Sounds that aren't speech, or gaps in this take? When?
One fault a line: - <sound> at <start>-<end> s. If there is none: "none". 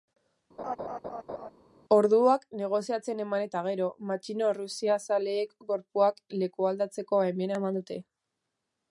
- laugh at 0.6-1.5 s